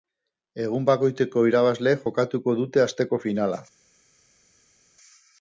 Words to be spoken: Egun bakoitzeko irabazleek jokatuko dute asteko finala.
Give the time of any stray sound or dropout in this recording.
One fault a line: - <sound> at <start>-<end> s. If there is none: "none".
none